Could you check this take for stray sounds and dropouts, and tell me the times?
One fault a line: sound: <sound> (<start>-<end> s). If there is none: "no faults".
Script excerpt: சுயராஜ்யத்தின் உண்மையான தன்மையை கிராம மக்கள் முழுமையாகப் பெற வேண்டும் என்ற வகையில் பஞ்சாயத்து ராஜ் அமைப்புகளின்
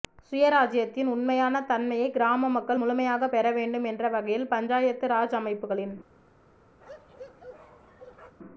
sound: bark (6.8-8.4 s)